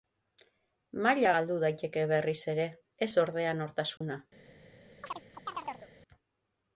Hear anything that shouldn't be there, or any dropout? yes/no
yes